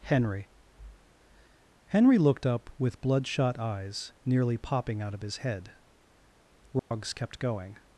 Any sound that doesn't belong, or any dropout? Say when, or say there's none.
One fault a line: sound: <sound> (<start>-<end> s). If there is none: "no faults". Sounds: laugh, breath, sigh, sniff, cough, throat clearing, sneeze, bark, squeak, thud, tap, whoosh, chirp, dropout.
sound: dropout (6.8-6.9 s)